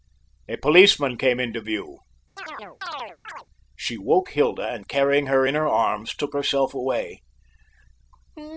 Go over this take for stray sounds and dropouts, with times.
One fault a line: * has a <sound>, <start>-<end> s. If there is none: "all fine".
* has a chirp, 2.4-3.5 s